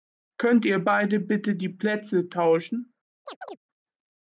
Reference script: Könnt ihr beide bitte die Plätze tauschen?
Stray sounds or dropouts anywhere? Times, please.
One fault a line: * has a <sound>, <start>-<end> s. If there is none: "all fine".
* has a chirp, 3.3-3.6 s